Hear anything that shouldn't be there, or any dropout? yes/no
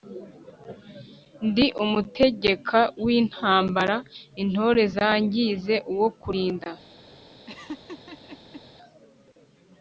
yes